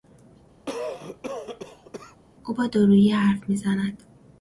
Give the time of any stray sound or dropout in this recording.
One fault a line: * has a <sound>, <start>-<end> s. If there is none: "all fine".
* has a cough, 0.7-2.2 s